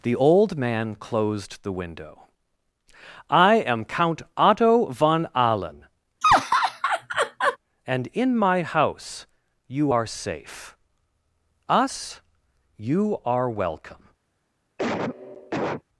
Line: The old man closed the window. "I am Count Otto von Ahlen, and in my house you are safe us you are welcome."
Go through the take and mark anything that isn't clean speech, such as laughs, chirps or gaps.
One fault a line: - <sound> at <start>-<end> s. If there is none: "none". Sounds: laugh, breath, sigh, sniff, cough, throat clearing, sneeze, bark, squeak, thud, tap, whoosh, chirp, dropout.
- laugh at 6.2-7.6 s
- cough at 14.8-15.8 s